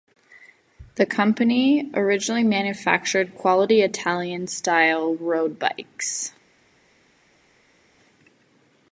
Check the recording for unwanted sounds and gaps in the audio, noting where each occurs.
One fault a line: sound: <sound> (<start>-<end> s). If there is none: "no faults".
no faults